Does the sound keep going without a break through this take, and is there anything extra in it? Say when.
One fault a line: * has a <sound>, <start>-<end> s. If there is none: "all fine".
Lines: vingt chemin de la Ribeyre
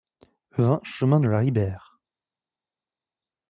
all fine